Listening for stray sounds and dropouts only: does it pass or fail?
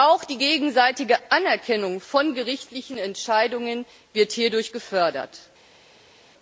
pass